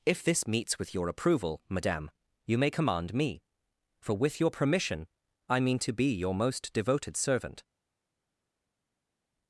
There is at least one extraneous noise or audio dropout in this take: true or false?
false